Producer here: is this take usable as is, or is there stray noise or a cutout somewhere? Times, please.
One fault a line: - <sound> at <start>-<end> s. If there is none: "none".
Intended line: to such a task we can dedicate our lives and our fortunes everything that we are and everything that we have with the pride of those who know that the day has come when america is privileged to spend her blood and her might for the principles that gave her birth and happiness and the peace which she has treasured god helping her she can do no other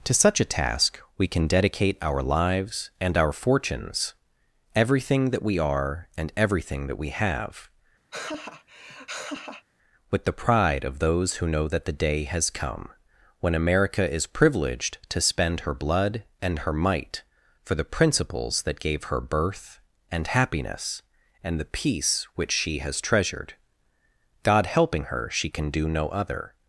- laugh at 8.1-9.7 s